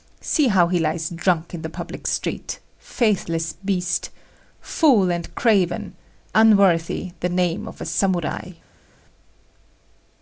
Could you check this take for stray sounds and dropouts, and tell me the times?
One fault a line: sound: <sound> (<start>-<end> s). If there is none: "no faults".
no faults